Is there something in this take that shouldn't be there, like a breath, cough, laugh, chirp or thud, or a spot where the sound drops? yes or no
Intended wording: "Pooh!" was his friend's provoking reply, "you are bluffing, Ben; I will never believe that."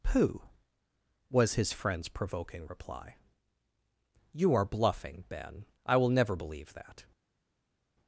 no